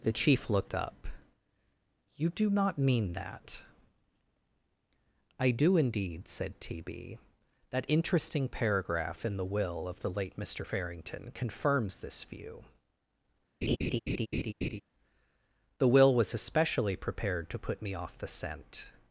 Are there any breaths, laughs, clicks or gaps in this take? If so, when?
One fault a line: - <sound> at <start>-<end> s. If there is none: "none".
- laugh at 13.6-14.8 s